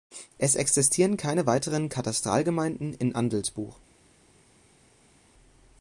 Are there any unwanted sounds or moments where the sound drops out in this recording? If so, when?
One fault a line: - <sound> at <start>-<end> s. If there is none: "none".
none